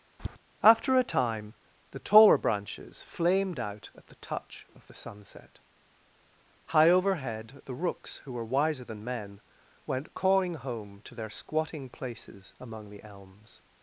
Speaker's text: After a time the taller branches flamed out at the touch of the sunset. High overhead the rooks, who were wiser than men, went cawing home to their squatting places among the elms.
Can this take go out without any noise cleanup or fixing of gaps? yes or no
no